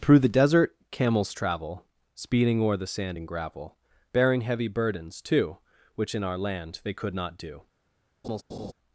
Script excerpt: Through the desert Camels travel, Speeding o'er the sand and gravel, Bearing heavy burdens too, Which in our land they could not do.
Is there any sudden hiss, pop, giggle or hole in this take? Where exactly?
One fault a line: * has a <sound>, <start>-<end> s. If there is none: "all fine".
* has a laugh, 8.2-8.7 s